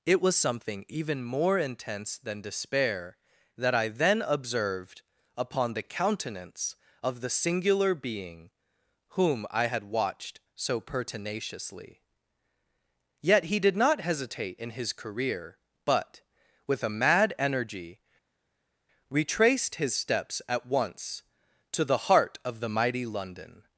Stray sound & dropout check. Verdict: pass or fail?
pass